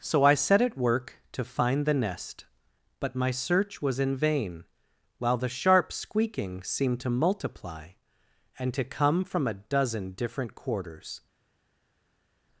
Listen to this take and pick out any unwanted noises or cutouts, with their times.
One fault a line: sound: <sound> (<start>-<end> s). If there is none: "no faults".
no faults